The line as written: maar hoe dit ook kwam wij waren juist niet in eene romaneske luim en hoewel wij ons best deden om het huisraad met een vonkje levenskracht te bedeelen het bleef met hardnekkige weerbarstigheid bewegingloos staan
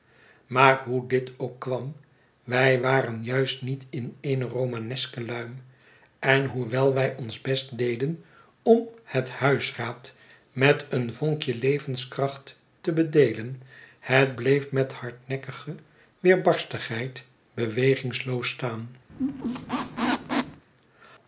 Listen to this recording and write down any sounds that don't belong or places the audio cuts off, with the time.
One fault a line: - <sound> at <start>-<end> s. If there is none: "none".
- squeak at 19.1-20.6 s